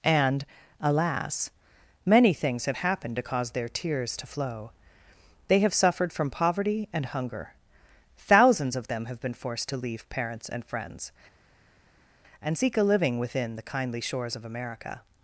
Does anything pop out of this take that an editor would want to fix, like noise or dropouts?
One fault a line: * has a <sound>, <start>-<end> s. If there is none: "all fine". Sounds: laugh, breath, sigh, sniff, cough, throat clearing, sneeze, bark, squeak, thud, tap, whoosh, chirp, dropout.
all fine